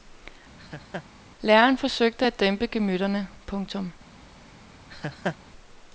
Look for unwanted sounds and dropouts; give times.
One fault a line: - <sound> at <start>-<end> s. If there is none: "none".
- laugh at 0.6-1.1 s
- laugh at 4.9-5.4 s